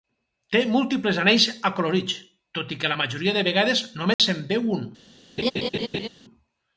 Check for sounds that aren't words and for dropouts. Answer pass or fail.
fail